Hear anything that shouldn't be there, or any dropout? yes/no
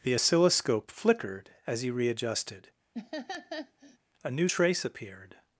yes